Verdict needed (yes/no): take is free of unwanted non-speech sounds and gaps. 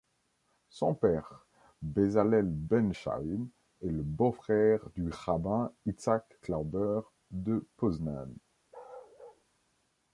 no